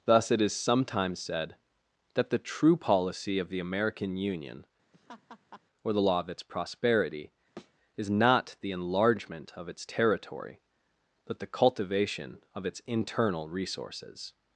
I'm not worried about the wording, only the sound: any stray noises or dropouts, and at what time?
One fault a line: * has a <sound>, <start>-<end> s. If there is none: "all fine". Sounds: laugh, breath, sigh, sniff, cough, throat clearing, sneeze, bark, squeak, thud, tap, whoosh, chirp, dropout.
* has a laugh, 4.9-5.6 s
* has a thud, 7.6-7.8 s